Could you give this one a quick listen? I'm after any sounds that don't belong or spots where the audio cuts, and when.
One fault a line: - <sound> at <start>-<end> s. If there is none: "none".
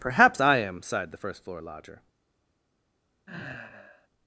- sigh at 3.3-4.1 s